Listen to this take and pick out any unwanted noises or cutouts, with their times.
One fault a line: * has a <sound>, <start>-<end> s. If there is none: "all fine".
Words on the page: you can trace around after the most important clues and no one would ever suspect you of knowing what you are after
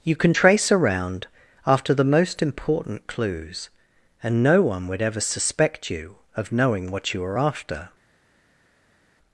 all fine